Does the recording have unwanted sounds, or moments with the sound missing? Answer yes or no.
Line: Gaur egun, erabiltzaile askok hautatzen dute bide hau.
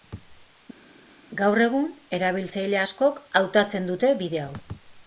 no